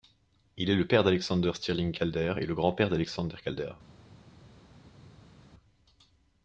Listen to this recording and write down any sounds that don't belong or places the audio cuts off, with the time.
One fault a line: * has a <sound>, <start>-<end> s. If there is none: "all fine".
all fine